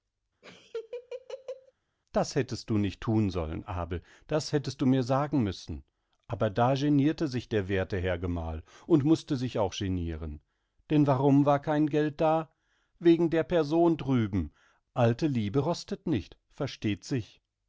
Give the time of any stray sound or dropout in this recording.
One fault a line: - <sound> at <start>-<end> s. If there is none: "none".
- laugh at 0.4-1.7 s